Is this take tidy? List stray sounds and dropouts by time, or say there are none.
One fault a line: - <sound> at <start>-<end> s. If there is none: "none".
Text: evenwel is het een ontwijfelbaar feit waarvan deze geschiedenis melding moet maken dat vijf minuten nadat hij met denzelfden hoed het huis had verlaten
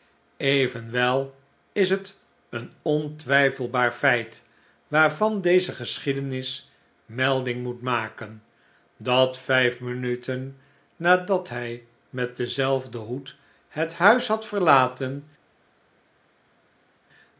none